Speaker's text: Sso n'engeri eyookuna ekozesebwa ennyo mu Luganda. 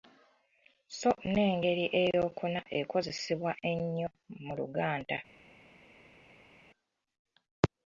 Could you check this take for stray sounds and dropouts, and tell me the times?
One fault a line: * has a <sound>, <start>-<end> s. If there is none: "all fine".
all fine